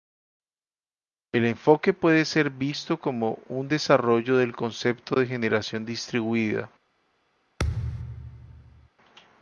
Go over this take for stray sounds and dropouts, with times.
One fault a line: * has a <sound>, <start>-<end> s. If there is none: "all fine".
* has a thud, 7.6-8.9 s